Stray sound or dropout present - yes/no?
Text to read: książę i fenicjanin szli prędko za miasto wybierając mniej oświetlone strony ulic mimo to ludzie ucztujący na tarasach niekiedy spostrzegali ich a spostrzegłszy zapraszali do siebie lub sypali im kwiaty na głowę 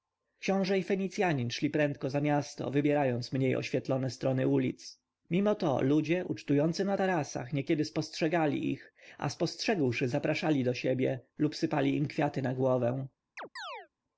yes